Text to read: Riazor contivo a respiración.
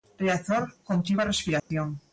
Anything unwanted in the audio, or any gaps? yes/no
yes